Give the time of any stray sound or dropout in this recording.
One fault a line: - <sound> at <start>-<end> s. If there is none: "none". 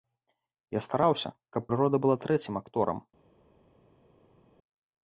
none